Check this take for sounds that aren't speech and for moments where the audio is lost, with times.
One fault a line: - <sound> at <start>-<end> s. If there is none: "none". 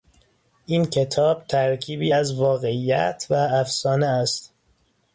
none